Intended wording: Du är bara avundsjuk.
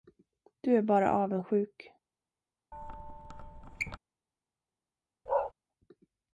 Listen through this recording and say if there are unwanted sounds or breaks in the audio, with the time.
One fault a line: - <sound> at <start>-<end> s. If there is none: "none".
- squeak at 2.7-4.0 s
- bark at 5.3-5.5 s